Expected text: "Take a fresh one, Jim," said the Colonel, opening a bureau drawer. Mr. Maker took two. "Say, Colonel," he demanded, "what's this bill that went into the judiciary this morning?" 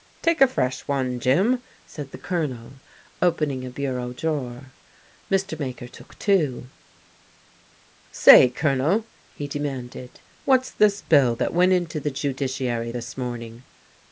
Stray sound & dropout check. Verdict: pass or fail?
pass